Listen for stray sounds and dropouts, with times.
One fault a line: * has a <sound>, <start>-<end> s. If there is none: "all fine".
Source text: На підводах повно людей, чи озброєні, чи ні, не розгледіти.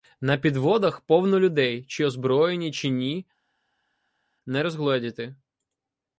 all fine